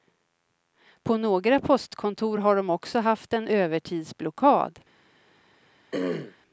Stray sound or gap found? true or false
true